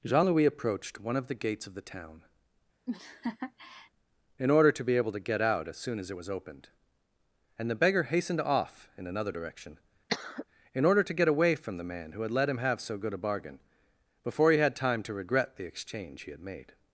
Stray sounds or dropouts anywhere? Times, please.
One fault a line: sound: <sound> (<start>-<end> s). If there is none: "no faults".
sound: laugh (2.9-3.9 s)
sound: cough (10.1-10.4 s)